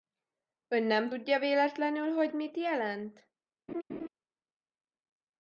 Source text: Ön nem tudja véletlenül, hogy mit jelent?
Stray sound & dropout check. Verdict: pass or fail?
fail